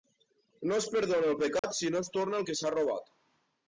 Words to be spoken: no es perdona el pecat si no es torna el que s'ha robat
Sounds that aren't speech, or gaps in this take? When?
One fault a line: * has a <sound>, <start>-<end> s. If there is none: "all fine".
* has a dropout, 1.6-1.6 s